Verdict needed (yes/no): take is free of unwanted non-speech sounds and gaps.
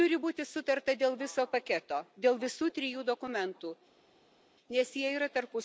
yes